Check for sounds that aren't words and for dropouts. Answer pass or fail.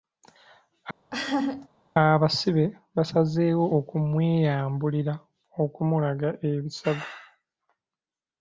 fail